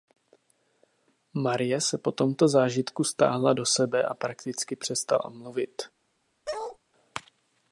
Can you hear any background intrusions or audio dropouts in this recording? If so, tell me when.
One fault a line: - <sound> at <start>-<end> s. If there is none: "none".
- bark at 6.5-6.8 s